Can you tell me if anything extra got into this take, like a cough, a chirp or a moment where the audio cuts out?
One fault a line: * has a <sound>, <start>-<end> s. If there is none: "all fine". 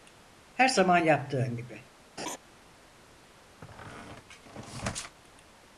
* has a laugh, 2.2-2.4 s
* has a squeak, 3.6-5.2 s